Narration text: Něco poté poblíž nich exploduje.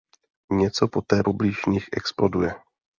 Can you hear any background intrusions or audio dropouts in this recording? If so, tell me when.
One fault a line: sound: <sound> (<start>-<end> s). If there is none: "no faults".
no faults